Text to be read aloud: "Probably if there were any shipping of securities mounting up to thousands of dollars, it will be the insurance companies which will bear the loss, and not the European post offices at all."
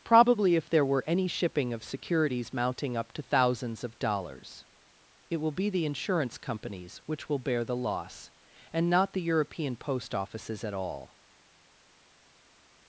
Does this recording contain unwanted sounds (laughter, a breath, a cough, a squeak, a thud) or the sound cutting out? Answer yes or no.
no